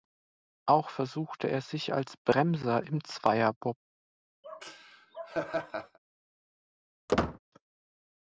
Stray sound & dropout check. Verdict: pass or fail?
fail